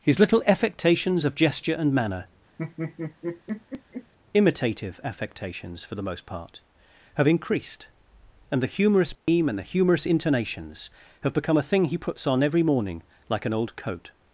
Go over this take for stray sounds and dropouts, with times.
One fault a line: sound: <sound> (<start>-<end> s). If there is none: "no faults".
sound: laugh (2.6-4.1 s)
sound: dropout (9.1-9.3 s)